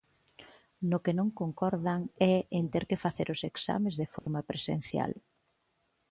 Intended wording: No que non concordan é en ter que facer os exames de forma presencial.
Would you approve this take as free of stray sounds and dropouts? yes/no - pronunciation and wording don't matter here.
no